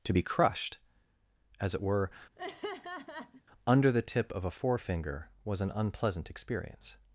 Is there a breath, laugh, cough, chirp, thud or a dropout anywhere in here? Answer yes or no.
yes